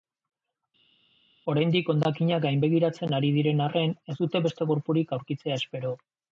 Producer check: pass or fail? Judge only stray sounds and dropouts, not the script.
pass